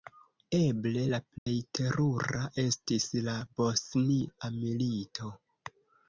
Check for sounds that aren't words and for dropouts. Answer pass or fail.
fail